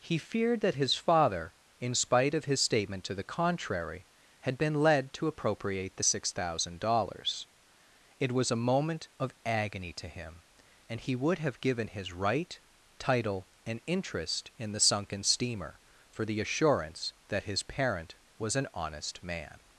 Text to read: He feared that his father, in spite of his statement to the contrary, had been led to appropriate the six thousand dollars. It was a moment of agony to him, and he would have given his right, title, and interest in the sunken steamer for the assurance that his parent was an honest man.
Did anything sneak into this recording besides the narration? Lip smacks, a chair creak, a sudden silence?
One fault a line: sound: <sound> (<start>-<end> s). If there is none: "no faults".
no faults